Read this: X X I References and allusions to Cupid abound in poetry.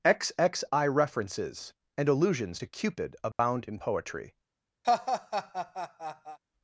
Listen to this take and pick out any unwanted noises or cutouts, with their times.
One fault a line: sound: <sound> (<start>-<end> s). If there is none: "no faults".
sound: dropout (3.3-3.4 s)
sound: laugh (4.8-6.4 s)